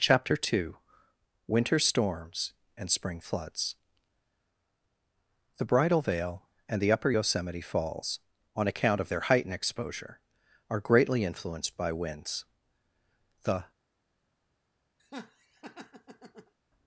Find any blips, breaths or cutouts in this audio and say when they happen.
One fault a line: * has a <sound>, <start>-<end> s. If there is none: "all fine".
* has a laugh, 15.0-16.5 s